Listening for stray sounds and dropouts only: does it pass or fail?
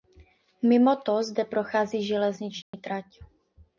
fail